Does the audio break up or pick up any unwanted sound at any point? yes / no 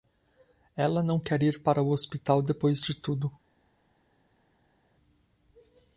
no